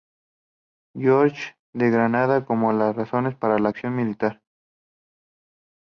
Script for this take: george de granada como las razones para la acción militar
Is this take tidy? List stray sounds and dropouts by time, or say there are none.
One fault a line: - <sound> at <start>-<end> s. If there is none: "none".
none